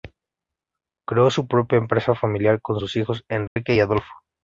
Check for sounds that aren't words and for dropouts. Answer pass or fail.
fail